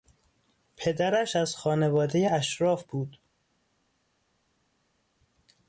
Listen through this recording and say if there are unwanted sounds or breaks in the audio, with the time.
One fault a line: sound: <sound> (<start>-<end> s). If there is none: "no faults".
no faults